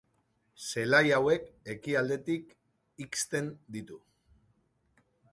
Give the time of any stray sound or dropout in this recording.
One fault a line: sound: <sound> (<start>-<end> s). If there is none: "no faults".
no faults